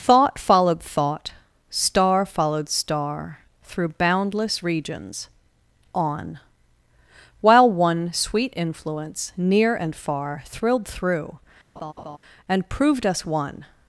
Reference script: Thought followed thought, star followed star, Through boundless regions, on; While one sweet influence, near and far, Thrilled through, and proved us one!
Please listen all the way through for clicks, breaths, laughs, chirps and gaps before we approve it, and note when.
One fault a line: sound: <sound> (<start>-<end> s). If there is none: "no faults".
sound: laugh (11.8-12.2 s)